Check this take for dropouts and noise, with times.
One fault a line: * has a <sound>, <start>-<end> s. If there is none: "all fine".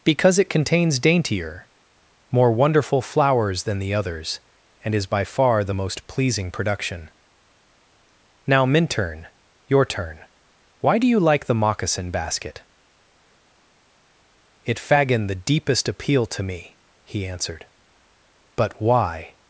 all fine